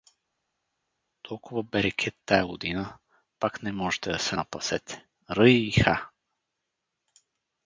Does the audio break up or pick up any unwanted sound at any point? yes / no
no